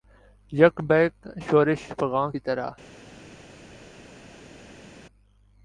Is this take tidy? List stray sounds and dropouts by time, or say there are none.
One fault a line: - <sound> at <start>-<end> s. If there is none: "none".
none